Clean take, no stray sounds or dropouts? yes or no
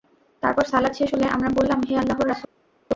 yes